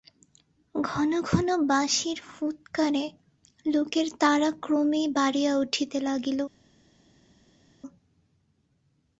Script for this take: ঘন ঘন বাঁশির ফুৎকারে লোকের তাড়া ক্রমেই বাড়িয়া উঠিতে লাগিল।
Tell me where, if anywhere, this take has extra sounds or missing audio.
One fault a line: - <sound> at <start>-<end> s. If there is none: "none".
none